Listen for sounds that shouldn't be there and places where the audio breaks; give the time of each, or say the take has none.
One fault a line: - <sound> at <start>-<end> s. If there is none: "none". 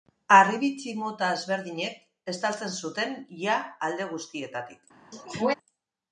- sneeze at 5.1-5.5 s